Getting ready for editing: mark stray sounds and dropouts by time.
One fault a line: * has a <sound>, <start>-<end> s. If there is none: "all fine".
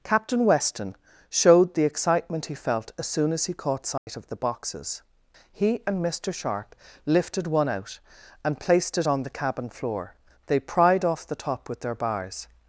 * has a dropout, 4.0-4.1 s